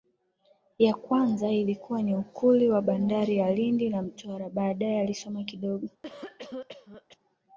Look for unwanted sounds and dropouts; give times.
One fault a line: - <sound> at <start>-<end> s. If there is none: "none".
- cough at 6.0-7.2 s